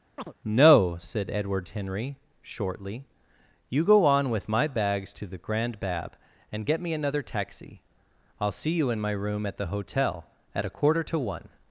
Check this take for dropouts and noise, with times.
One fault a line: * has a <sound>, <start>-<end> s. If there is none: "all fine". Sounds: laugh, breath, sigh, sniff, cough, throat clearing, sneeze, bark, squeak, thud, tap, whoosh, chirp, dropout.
* has a chirp, 0.2-0.3 s